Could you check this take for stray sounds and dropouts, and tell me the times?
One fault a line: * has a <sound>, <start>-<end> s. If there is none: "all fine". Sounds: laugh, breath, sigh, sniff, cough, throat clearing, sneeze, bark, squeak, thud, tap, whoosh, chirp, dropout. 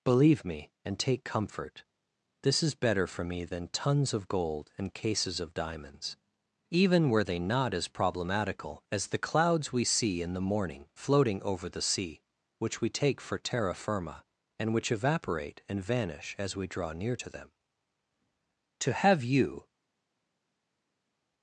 all fine